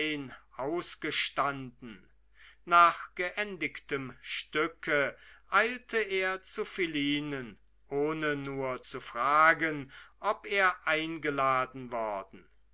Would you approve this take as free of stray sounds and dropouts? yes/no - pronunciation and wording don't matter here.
yes